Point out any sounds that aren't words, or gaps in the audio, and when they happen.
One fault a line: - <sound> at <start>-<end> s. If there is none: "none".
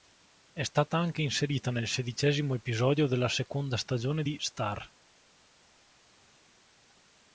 none